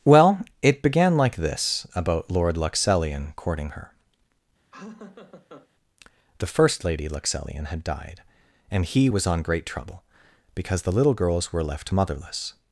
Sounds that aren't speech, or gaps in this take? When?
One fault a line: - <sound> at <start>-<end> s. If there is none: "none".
- laugh at 4.7-5.7 s